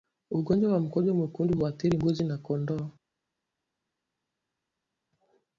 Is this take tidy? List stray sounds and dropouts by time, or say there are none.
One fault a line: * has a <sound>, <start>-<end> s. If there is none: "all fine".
all fine